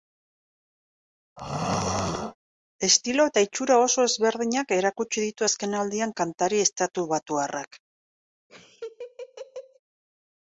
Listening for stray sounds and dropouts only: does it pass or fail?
fail